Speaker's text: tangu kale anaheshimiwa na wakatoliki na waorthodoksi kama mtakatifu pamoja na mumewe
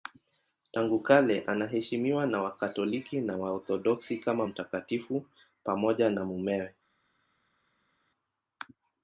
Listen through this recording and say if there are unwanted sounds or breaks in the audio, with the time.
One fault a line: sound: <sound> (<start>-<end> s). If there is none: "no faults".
no faults